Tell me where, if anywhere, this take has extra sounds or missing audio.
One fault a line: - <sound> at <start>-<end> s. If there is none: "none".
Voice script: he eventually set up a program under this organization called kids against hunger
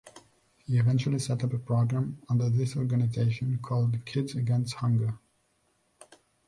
none